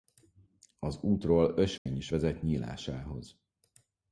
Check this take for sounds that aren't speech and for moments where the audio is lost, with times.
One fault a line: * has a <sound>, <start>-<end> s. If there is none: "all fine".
* has a dropout, 1.8-1.9 s